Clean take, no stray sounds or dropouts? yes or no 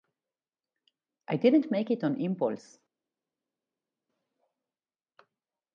yes